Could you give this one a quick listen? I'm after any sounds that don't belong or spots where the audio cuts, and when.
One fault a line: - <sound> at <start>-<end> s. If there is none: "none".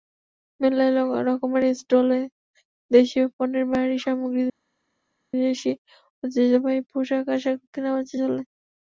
none